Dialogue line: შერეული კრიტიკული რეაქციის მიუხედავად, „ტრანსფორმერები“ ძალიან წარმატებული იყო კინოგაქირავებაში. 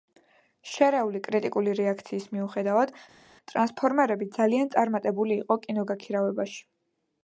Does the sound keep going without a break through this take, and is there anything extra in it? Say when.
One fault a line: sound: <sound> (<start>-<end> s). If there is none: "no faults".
no faults